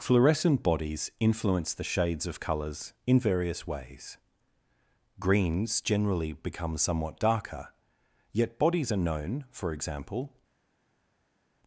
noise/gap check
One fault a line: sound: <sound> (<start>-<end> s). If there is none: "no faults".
no faults